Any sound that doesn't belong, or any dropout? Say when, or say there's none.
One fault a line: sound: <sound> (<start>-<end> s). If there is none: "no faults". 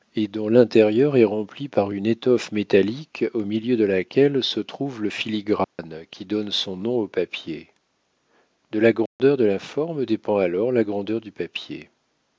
sound: dropout (5.6-5.8 s)
sound: dropout (9.1-9.2 s)